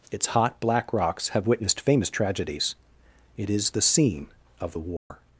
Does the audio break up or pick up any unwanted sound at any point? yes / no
yes